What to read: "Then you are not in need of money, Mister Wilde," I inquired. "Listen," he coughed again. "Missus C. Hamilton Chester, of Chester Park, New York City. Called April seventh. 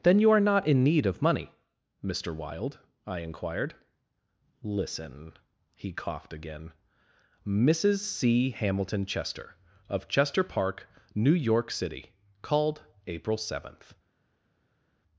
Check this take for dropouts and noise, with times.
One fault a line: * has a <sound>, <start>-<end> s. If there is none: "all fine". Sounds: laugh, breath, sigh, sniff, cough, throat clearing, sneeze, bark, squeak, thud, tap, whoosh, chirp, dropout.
all fine